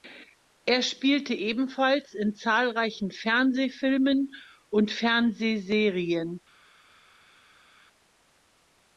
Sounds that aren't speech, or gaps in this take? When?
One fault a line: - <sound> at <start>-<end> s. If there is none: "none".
none